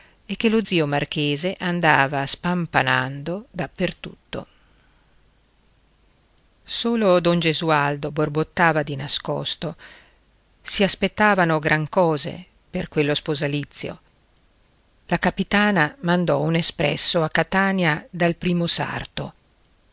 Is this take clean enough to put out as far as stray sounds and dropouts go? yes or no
yes